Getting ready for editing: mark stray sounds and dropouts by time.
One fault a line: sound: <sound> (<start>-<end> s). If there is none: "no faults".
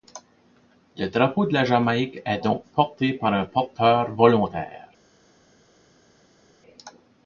no faults